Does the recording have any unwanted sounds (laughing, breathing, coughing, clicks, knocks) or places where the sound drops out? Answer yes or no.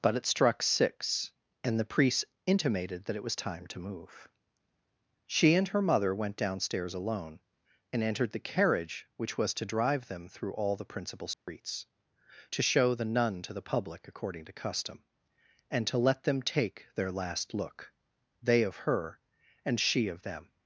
yes